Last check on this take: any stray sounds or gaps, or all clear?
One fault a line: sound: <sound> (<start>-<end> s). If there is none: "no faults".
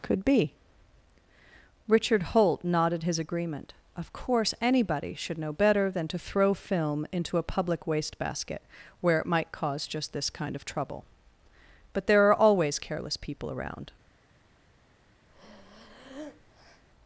sound: breath (15.3-16.8 s)